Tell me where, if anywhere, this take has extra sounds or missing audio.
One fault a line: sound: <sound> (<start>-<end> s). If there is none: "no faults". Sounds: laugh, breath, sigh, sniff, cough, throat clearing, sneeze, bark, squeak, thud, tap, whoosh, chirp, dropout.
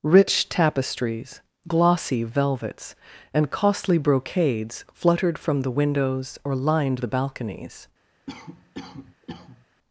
sound: cough (8.3-9.7 s)